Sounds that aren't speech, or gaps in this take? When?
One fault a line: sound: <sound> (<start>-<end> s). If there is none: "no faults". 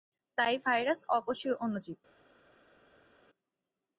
no faults